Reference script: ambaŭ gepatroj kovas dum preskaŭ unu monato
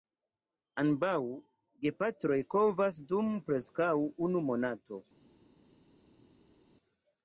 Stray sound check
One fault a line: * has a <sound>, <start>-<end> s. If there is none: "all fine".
all fine